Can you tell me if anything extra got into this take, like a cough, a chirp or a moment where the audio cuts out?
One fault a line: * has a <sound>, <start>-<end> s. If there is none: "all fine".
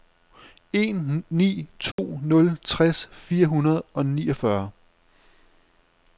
* has a dropout, 1.9-2.0 s